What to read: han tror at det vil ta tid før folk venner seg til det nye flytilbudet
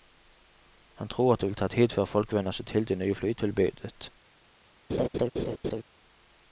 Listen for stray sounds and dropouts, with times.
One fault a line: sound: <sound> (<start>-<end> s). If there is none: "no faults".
sound: laugh (4.9-5.8 s)